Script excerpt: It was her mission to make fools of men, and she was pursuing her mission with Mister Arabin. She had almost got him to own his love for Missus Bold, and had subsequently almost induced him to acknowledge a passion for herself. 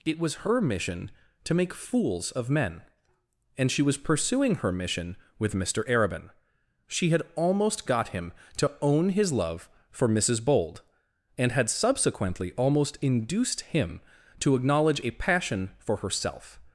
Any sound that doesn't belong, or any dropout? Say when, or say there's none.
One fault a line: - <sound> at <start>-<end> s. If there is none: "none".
none